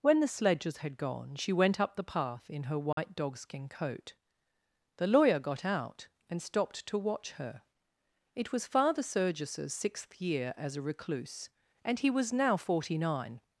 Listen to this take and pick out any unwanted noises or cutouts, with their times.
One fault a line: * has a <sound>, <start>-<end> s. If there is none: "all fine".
* has a dropout, 2.9-3.0 s